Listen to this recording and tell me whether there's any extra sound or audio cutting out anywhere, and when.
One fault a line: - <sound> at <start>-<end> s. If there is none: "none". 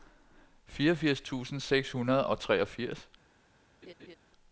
- laugh at 3.8-4.2 s